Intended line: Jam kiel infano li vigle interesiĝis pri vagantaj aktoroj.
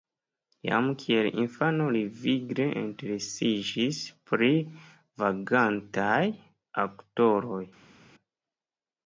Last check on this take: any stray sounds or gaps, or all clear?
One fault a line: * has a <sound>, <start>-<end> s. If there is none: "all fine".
all fine